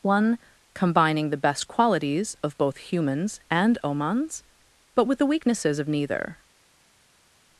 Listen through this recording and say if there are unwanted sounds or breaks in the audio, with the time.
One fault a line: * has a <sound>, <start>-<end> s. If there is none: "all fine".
all fine